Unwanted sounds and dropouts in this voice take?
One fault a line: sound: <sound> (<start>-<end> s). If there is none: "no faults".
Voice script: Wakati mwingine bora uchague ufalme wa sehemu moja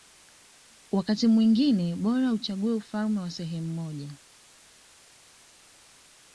no faults